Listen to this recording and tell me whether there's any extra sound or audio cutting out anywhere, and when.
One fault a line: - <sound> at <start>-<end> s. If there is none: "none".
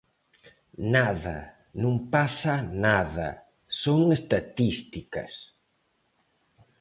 none